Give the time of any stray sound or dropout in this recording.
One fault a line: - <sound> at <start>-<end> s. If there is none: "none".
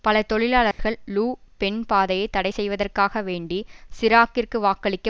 - dropout at 0.7-0.8 s